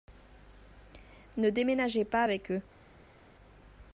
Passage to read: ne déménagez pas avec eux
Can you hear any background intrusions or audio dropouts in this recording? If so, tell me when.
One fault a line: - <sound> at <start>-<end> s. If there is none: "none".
none